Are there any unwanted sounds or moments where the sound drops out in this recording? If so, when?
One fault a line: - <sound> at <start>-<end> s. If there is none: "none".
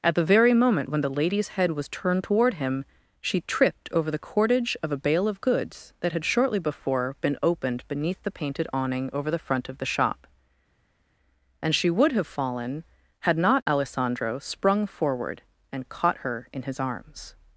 none